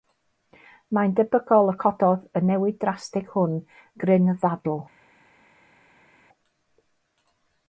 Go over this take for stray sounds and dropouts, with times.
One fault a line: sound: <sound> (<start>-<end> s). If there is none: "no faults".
no faults